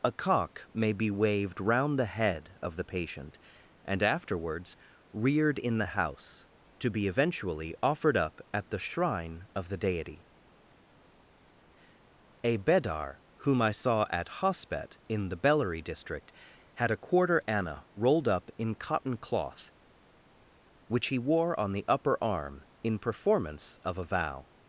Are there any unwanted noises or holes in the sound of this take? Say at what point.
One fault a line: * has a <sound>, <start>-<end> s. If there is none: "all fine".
all fine